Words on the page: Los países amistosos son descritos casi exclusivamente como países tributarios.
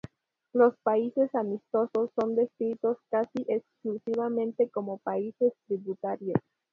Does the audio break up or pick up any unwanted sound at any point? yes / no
no